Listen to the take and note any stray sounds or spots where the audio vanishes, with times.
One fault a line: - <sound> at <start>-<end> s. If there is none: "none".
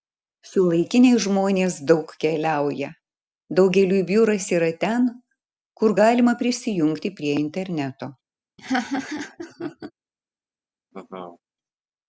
- laugh at 8.6-9.9 s
- laugh at 10.9-11.4 s